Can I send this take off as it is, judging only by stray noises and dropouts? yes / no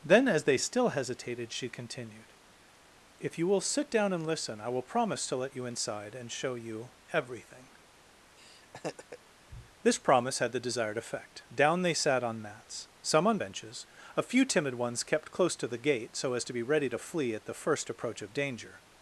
no